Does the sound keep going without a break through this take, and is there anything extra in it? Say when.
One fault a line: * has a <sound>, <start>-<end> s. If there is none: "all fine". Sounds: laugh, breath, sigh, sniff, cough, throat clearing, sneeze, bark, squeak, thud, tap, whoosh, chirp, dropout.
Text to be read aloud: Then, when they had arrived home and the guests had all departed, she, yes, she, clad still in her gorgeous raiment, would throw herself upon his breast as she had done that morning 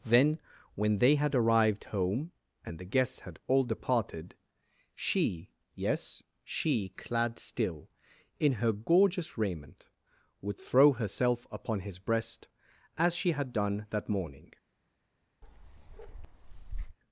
* has a bark, 15.4-17.0 s